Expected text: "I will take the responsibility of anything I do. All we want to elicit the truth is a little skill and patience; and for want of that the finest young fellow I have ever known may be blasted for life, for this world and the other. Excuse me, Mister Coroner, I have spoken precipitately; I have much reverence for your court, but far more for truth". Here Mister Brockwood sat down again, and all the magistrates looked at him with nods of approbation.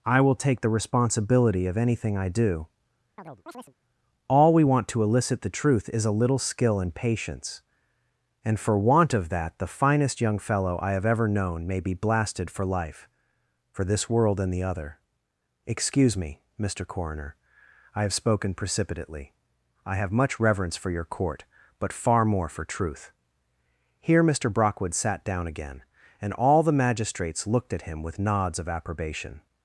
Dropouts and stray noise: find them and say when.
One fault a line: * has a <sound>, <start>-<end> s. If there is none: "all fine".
* has a chirp, 3.2-3.7 s